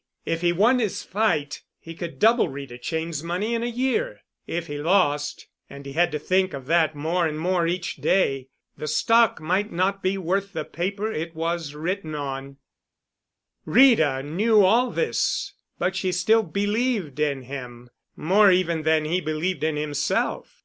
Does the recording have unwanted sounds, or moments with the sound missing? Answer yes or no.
no